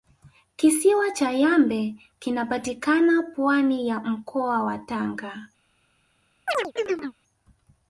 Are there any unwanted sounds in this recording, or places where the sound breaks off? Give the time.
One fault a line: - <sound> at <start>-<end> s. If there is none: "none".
- chirp at 6.5-7.2 s